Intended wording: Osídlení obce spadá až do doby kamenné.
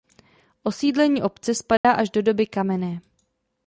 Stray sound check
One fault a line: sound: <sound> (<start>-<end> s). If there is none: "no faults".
sound: dropout (1.8-1.8 s)